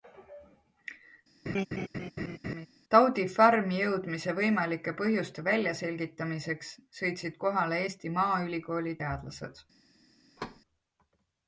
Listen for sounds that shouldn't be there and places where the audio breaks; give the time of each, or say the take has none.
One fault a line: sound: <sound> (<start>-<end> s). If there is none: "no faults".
sound: laugh (1.5-2.7 s)
sound: thud (10.4-10.6 s)